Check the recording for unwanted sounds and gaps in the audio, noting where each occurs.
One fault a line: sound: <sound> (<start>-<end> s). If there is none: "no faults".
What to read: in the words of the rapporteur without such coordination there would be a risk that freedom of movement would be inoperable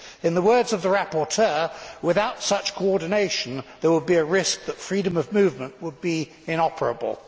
no faults